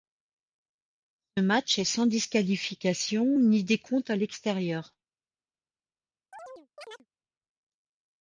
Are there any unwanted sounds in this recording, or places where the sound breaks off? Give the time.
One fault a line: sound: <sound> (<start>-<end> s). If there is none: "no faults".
sound: chirp (6.3-7.1 s)